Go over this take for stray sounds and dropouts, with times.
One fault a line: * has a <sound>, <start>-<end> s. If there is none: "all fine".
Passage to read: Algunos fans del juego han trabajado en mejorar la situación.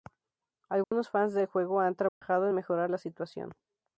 * has a dropout, 0.8-0.9 s
* has a dropout, 2.1-2.2 s